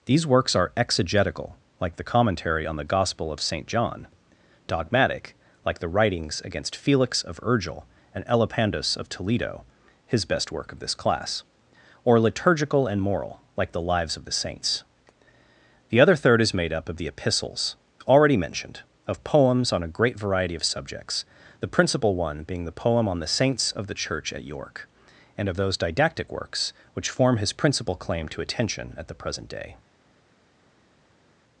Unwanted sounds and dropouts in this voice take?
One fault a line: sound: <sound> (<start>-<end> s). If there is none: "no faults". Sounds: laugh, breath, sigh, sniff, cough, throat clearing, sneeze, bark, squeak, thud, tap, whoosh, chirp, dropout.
no faults